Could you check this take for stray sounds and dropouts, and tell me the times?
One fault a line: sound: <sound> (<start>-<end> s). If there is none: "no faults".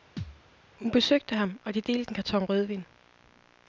sound: thud (0.2-0.4 s)